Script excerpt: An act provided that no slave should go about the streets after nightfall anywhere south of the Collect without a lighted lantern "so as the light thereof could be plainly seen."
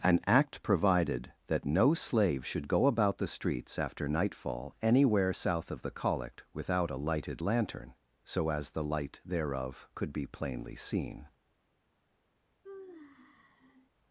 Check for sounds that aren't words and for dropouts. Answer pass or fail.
fail